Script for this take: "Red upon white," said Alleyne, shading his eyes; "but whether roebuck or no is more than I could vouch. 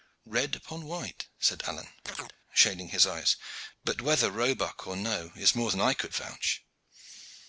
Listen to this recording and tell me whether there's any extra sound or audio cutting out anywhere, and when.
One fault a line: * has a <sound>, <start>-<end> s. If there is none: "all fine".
* has a chirp, 2.0-2.4 s